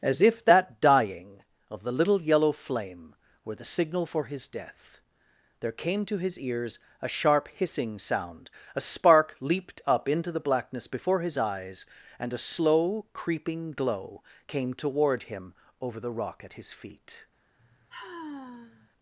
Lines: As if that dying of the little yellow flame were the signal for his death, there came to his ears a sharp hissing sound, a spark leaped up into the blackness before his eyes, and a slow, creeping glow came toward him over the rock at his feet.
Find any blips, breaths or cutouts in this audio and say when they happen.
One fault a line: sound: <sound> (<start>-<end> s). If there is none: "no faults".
sound: sigh (17.6-18.9 s)